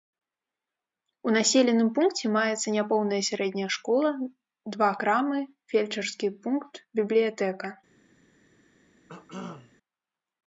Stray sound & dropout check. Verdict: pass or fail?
fail